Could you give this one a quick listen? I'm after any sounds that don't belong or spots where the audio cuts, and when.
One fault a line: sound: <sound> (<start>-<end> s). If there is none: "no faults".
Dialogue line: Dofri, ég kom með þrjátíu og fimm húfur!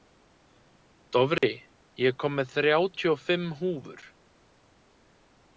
sound: dropout (1.4-1.4 s)